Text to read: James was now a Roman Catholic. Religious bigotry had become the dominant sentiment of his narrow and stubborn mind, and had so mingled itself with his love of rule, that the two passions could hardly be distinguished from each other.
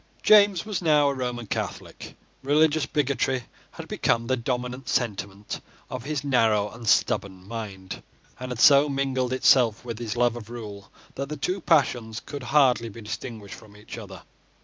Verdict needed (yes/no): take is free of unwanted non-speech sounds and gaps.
yes